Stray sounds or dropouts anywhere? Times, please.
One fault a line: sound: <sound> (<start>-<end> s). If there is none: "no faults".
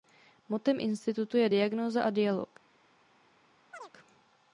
sound: chirp (3.7-3.9 s)